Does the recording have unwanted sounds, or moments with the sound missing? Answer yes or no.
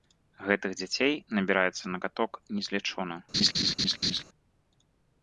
yes